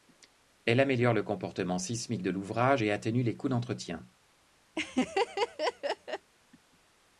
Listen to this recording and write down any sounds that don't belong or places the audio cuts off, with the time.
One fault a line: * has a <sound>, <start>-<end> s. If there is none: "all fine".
* has a laugh, 4.8-6.3 s